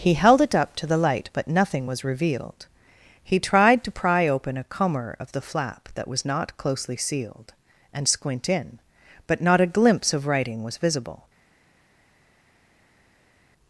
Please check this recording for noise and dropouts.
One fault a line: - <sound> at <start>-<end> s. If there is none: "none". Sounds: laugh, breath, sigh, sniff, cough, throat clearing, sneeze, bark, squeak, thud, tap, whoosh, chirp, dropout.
none